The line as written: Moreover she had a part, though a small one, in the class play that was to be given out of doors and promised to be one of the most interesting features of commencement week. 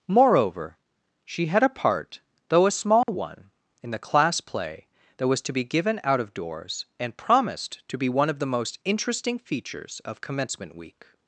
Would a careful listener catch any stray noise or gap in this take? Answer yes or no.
yes